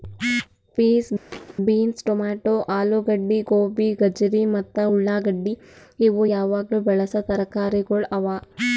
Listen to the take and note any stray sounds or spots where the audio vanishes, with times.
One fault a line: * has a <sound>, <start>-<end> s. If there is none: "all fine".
* has a thud, 1.3-1.6 s